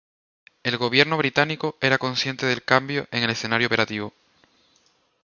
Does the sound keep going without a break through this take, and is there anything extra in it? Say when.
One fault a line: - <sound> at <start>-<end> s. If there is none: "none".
none